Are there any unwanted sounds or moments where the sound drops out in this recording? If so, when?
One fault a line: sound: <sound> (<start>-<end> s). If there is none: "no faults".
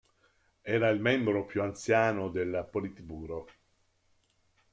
no faults